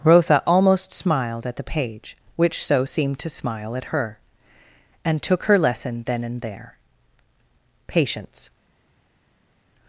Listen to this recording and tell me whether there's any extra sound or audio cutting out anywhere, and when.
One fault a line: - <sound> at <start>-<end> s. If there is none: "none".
none